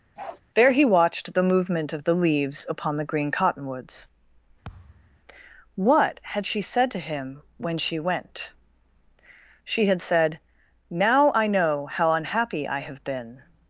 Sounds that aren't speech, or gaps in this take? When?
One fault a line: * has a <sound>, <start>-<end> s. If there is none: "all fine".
* has a bark, 0.2-0.4 s
* has a thud, 4.6-5.2 s